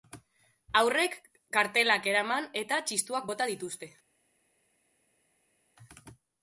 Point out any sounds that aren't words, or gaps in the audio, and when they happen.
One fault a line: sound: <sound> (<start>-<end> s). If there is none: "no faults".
no faults